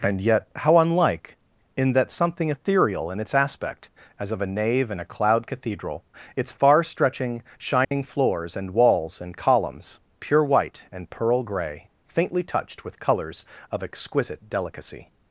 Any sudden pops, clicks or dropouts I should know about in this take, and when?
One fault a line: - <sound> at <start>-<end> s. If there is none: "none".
- dropout at 7.8-7.9 s